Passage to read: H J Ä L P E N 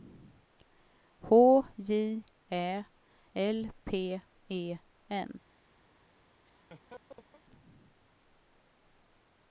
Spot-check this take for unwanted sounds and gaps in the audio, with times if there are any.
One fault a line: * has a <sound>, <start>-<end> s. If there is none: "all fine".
* has a laugh, 6.4-7.4 s